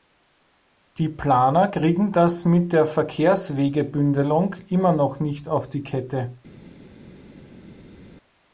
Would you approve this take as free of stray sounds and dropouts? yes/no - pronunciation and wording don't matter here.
yes